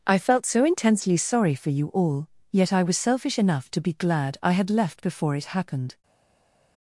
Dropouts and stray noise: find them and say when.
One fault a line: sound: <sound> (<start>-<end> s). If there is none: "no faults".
no faults